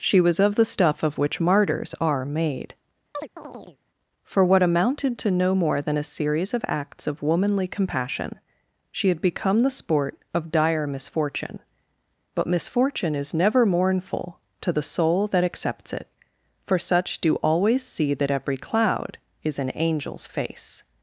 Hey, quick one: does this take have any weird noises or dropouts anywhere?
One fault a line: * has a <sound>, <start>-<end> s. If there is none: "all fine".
* has a chirp, 3.1-3.8 s